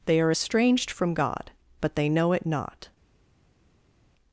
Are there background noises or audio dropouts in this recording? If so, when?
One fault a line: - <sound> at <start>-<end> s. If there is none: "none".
none